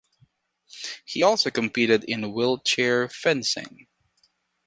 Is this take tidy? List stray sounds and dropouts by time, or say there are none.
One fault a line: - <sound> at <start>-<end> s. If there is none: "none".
none